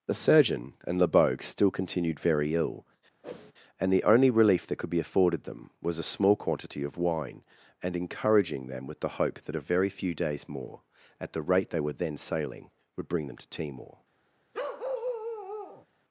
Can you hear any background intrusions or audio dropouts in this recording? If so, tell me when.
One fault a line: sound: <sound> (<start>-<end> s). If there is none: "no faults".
sound: whoosh (3.2-3.5 s)
sound: bark (14.5-15.9 s)